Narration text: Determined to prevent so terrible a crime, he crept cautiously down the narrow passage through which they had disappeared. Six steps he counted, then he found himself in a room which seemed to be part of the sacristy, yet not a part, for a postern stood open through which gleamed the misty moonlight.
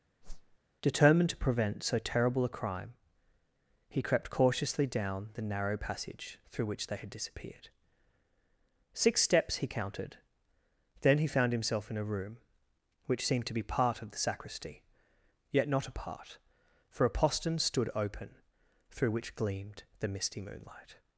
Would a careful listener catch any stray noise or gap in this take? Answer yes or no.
yes